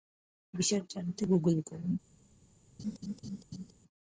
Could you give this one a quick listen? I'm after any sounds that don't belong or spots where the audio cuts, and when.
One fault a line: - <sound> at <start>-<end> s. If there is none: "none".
- laugh at 2.8-3.7 s